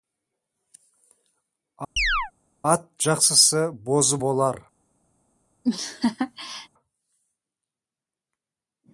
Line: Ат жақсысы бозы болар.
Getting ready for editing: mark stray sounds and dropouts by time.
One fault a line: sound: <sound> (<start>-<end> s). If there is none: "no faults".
sound: chirp (2.0-2.3 s)
sound: laugh (5.6-6.7 s)